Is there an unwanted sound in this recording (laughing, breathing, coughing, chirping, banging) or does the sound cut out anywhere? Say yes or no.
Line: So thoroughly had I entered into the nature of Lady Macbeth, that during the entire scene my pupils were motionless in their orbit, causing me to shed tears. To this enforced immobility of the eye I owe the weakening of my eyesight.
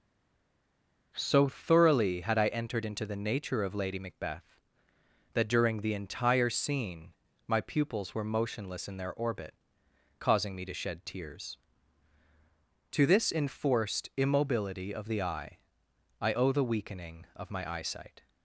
no